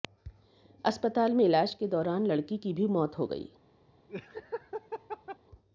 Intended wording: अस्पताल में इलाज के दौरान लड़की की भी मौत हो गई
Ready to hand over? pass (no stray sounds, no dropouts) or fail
fail